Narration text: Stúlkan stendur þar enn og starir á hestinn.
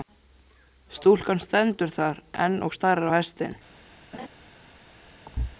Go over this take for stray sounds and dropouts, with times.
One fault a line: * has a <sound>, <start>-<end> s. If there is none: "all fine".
* has a laugh, 4.1-4.3 s
* has a thud, 5.3-5.6 s